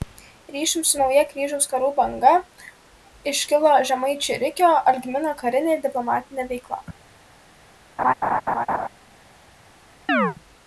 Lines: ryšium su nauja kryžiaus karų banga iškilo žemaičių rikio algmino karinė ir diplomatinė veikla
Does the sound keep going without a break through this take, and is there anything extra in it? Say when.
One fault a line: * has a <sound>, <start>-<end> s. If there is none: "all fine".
* has a laugh, 8.0-8.9 s
* has a chirp, 10.1-10.4 s